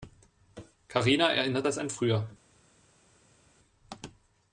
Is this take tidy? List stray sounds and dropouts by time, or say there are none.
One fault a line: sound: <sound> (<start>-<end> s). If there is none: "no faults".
no faults